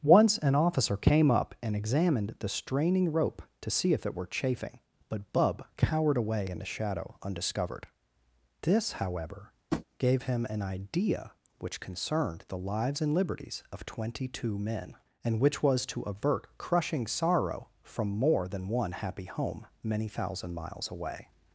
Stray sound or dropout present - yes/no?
yes